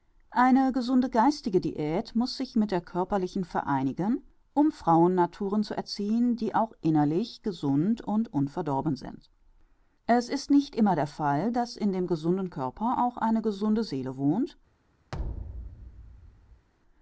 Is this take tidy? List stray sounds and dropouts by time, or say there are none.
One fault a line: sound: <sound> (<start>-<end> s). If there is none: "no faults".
sound: thud (15.1-16.7 s)